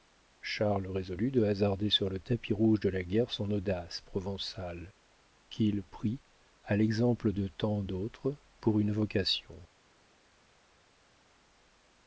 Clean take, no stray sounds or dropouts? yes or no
yes